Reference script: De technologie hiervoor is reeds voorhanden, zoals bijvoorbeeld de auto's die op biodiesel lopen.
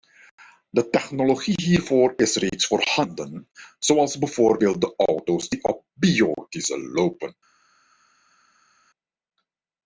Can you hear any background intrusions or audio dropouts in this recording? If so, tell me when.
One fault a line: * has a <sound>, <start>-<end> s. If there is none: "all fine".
all fine